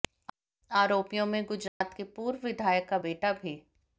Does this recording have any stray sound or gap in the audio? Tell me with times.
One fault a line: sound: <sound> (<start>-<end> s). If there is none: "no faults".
sound: dropout (1.7-1.8 s)